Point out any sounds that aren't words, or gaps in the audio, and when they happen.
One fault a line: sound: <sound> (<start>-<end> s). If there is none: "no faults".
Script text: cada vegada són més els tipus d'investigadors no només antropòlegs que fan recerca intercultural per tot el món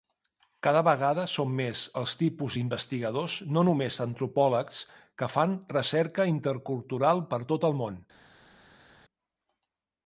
no faults